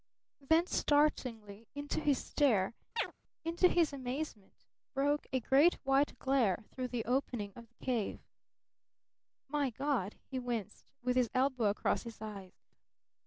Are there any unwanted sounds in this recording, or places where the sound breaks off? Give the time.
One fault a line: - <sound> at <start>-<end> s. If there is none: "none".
- chirp at 3.0-3.1 s